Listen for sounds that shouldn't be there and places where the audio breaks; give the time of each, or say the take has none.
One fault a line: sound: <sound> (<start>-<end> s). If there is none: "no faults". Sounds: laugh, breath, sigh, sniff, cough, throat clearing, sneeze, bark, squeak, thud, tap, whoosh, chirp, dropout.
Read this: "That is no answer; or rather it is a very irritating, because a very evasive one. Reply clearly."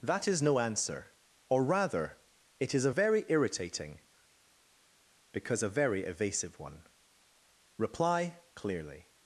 no faults